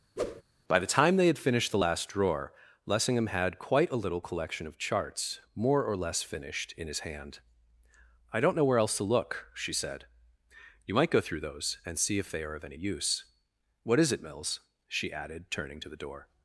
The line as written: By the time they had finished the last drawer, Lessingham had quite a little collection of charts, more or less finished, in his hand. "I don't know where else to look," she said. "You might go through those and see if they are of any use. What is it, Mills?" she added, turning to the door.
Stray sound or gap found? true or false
true